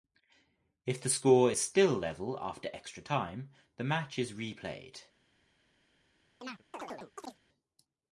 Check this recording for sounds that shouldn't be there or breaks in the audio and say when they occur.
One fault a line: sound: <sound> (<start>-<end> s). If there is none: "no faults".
sound: chirp (6.4-7.4 s)